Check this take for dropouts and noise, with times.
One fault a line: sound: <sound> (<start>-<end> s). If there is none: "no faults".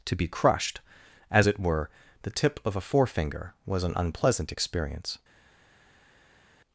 no faults